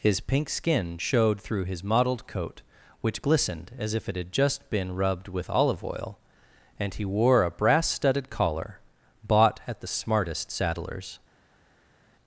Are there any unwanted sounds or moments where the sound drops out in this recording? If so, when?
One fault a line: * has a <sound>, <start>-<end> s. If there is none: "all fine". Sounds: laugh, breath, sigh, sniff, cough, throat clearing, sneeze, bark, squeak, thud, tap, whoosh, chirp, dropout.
all fine